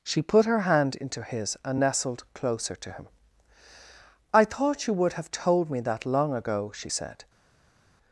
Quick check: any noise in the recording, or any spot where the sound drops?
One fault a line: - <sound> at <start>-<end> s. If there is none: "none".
none